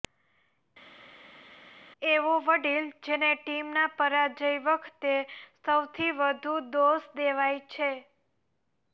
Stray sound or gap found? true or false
false